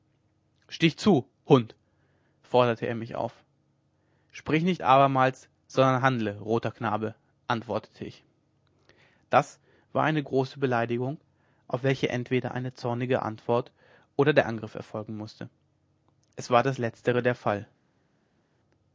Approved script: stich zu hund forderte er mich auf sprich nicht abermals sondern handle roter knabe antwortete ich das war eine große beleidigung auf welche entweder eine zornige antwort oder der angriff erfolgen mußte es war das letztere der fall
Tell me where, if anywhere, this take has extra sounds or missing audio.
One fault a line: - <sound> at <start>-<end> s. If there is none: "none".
none